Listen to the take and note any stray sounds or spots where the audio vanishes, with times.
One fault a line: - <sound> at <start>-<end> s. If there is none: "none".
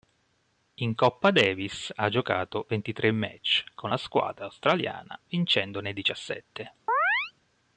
- chirp at 6.9-7.3 s